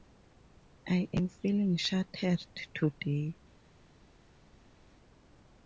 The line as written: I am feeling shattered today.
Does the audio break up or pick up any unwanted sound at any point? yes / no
no